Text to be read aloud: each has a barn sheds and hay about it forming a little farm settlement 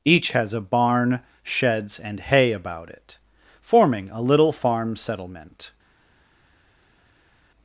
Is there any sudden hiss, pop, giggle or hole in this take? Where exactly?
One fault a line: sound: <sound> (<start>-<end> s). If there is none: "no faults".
no faults